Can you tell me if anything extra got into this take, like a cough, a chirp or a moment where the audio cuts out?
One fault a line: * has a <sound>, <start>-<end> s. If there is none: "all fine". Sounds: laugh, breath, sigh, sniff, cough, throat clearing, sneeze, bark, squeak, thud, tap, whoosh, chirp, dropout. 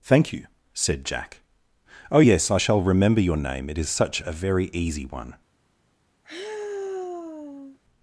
* has a sigh, 6.2-7.8 s